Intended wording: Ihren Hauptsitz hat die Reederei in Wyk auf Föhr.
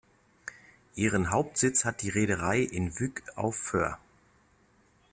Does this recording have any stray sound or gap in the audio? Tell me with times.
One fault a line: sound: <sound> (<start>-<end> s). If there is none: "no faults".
no faults